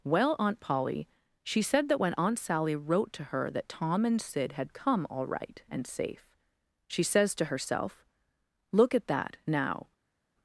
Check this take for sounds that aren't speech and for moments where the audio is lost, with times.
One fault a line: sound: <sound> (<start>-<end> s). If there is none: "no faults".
no faults